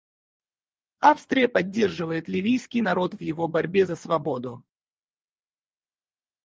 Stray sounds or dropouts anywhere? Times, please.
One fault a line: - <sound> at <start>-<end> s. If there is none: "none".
none